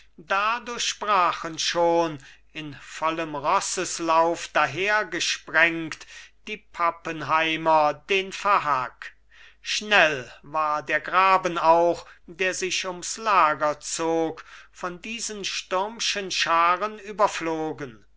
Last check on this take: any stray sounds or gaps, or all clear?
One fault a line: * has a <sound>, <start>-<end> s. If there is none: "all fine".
all fine